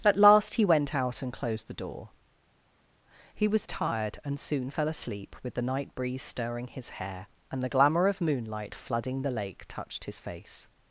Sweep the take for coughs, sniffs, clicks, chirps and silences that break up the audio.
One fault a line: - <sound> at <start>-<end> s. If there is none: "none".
none